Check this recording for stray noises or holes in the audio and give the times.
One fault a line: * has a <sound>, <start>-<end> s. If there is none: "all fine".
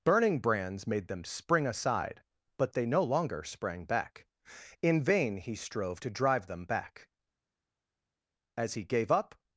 all fine